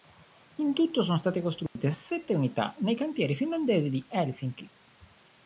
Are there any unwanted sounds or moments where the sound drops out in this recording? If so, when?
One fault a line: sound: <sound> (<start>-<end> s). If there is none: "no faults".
sound: dropout (1.7-1.8 s)